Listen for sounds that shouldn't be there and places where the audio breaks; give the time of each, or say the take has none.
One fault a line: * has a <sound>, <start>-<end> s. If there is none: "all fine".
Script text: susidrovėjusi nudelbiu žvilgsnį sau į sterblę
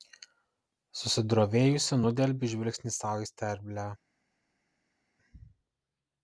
all fine